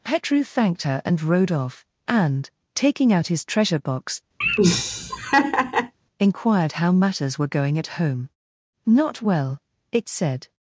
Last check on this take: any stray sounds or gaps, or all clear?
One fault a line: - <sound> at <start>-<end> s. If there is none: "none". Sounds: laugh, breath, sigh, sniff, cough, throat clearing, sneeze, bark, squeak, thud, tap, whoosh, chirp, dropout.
- laugh at 4.4-5.9 s